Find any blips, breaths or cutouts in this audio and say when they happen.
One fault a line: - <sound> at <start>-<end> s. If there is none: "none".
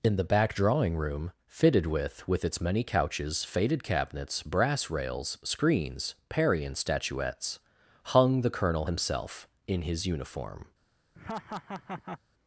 - laugh at 11.1-12.2 s